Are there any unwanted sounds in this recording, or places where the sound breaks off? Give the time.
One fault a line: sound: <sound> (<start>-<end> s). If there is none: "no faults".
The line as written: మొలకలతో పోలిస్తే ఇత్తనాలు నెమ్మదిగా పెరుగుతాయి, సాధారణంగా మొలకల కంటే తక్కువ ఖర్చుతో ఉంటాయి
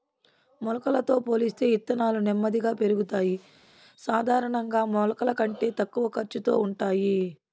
no faults